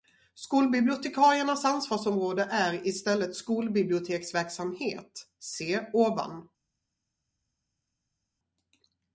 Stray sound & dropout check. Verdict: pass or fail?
pass